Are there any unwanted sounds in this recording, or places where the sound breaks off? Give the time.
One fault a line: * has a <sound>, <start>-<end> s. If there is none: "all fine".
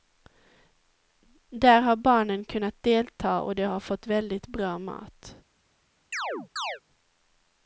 * has a chirp, 6.1-6.8 s